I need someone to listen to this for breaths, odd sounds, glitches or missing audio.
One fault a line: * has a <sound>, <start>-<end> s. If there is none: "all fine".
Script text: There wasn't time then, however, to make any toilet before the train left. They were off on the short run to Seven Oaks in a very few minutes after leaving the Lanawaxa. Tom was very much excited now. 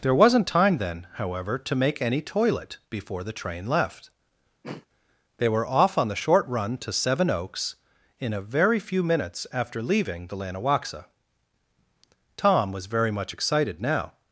* has a throat clearing, 4.6-4.9 s